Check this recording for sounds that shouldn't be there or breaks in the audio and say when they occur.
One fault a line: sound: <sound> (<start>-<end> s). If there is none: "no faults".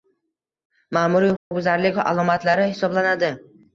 sound: dropout (1.4-1.5 s)